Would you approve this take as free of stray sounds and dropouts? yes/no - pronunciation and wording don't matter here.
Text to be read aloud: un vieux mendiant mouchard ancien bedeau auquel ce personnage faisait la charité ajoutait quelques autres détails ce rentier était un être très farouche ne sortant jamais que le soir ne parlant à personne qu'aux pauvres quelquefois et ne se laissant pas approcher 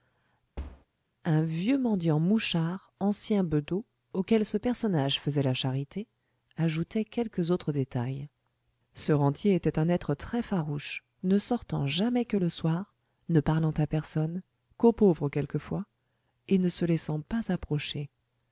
no